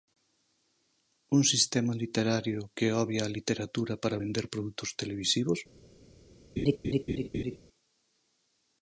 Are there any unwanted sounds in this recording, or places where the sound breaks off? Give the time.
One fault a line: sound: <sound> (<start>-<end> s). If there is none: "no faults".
sound: laugh (6.6-7.6 s)